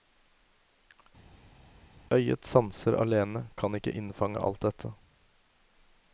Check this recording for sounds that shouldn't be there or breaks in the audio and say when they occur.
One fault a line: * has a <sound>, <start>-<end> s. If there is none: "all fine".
all fine